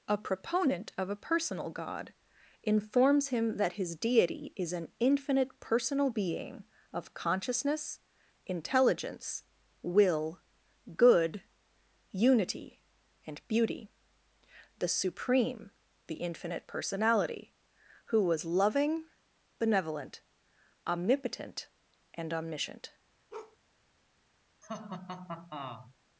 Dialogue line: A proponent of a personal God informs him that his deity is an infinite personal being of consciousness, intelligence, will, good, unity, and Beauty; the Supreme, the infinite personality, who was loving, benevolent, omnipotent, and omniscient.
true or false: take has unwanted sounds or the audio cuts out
true